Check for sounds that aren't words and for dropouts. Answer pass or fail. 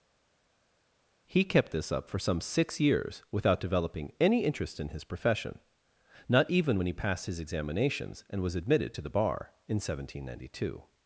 pass